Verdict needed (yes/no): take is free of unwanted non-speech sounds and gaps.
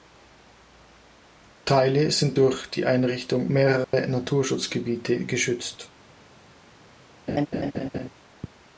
no